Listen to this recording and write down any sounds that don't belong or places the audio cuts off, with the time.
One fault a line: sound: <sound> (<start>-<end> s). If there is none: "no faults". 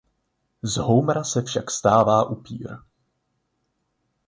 no faults